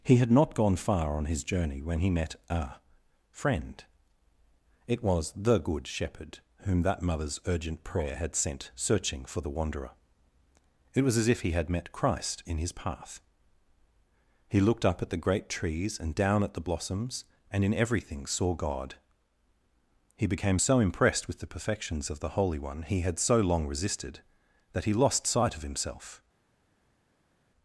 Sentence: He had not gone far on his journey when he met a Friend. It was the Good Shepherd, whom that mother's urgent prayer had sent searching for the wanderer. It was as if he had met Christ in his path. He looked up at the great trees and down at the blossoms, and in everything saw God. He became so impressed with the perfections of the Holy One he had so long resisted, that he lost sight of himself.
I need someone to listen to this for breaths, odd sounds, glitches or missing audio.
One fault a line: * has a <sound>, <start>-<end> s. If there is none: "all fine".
all fine